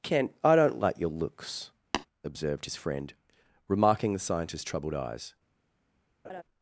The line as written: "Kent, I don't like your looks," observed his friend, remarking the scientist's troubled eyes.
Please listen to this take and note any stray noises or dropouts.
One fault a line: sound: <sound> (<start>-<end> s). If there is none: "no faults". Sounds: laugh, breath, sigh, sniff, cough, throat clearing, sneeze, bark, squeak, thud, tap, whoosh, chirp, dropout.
sound: tap (1.9-2.1 s)
sound: laugh (6.2-6.4 s)